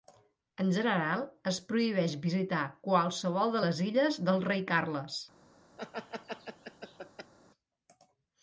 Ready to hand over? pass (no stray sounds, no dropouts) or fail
fail